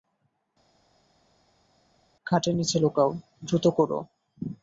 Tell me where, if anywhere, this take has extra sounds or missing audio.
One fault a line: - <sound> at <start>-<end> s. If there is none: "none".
none